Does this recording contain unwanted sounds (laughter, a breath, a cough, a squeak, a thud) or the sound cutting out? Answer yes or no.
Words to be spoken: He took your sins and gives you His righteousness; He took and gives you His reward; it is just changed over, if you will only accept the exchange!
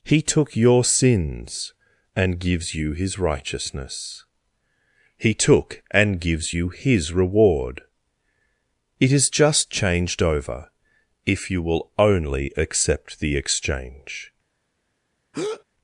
yes